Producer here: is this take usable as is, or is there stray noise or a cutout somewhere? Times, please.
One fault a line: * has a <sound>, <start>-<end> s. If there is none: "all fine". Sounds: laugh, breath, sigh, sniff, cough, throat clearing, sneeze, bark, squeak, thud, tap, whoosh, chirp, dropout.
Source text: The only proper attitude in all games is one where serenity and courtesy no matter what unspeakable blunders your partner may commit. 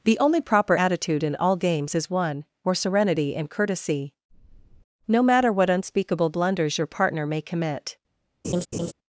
* has a laugh, 8.4-8.9 s